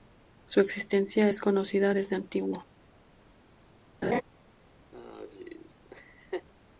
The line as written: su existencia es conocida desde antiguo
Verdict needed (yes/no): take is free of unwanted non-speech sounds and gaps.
no